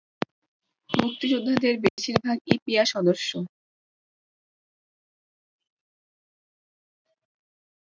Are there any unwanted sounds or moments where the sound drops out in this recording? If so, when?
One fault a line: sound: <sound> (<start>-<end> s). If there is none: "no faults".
sound: dropout (1.9-2.0 s)